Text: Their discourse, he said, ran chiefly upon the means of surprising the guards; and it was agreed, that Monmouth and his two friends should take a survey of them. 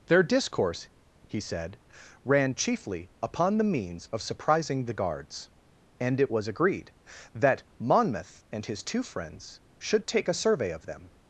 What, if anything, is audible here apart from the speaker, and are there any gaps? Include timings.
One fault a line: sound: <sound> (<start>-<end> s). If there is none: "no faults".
no faults